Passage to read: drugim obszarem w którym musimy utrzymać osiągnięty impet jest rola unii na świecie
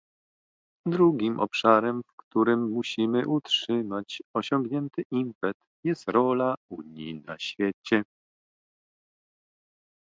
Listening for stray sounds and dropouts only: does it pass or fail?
pass